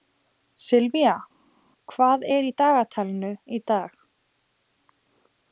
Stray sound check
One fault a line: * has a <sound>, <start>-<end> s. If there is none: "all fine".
all fine